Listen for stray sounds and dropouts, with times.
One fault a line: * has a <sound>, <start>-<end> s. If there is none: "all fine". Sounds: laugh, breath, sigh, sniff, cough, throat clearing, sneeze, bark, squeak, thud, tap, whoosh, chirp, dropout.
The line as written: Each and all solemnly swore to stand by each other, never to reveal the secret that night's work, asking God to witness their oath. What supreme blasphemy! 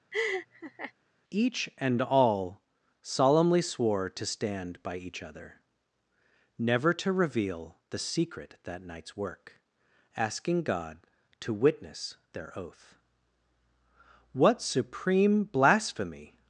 * has a laugh, 0.1-0.9 s